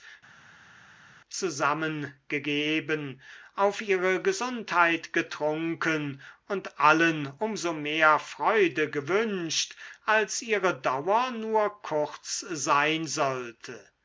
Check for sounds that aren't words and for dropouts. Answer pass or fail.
pass